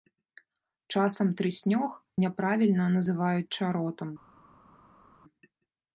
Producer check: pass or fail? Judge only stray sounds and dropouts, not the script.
pass